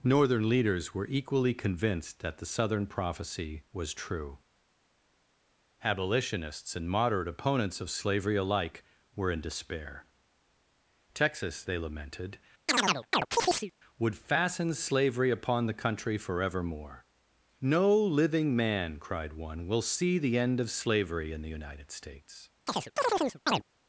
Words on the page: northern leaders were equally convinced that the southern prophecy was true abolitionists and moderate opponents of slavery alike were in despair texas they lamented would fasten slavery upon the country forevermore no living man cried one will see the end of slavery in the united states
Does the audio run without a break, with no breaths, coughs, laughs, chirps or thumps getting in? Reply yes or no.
no